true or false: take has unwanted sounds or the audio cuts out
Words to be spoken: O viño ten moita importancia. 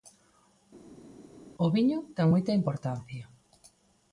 false